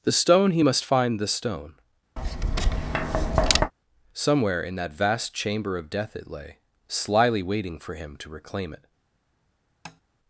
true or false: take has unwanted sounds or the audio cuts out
true